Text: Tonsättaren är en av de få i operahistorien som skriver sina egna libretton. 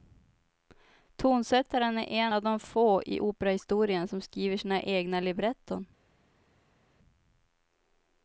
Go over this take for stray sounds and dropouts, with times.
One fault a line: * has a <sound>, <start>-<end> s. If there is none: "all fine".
all fine